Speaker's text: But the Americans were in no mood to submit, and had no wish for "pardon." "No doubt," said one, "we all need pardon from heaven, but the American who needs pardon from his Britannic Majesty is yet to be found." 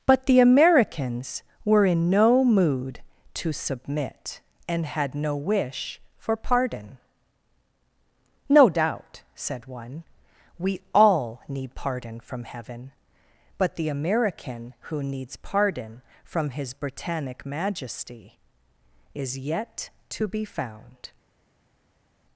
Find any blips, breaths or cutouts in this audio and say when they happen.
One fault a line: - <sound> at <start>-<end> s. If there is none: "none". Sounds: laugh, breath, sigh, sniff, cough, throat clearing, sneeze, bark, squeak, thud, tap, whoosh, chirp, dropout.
none